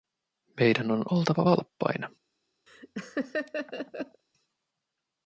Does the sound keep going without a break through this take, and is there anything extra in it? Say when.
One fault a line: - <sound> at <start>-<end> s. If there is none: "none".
- laugh at 2.7-4.2 s